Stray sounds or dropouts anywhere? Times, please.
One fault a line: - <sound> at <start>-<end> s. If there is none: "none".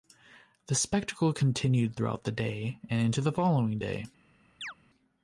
- chirp at 4.6-4.7 s